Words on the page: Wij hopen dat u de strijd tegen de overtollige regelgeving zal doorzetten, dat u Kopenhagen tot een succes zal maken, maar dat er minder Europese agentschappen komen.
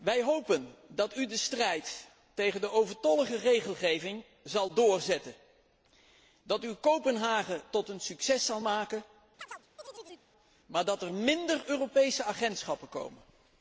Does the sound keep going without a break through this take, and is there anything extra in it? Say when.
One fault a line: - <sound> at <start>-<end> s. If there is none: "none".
- chirp at 9.4-10.3 s